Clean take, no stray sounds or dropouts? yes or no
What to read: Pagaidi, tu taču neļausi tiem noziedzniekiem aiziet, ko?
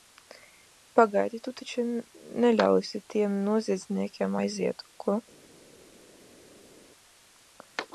yes